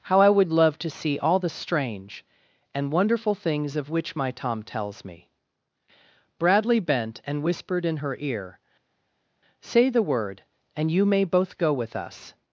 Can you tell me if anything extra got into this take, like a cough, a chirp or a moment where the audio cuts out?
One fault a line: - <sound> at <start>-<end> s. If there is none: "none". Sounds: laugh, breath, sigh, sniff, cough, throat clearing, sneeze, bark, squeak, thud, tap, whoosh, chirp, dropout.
none